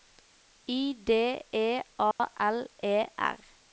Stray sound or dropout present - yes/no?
yes